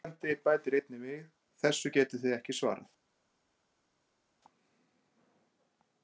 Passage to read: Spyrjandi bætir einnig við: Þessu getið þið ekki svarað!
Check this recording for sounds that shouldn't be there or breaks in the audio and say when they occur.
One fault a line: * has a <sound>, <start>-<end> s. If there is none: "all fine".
all fine